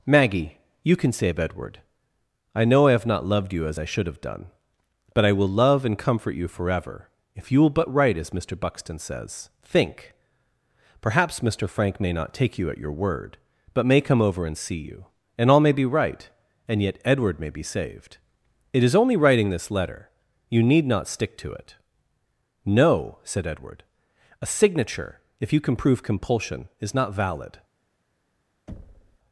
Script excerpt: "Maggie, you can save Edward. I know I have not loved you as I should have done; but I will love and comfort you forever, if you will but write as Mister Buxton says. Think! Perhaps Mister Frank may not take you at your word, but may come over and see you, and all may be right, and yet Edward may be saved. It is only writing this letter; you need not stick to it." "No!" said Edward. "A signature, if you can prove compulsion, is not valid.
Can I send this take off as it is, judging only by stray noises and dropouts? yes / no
no